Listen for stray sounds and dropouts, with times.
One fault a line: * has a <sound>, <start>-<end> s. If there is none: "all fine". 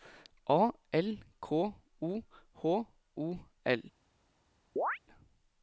* has a chirp, 4.8-5.0 s